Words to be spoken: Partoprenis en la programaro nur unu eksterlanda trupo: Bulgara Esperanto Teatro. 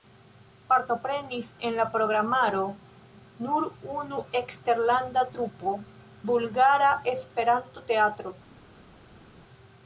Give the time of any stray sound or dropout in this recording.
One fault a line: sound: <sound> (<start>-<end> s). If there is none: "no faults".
no faults